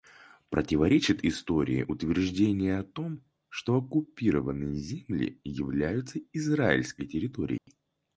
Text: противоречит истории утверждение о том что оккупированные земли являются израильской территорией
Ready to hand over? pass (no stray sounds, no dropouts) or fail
fail